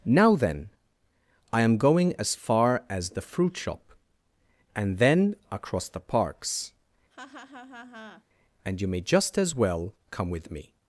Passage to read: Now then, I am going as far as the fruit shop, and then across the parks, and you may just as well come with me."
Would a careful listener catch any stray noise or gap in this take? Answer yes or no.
yes